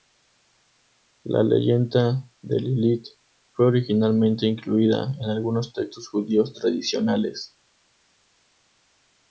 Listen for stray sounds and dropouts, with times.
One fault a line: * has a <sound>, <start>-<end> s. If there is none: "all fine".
all fine